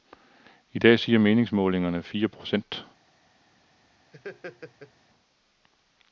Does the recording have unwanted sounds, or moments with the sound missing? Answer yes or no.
yes